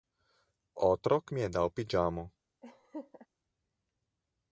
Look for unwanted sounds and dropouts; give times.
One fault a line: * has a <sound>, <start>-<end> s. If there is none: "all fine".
* has a laugh, 2.6-3.3 s